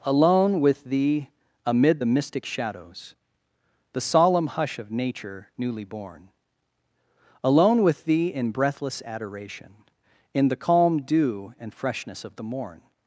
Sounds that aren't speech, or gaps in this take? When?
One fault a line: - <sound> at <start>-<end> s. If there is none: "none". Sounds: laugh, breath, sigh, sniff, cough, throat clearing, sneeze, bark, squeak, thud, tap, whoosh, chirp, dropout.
none